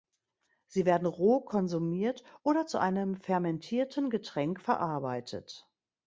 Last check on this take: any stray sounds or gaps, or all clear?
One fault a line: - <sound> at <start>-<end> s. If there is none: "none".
none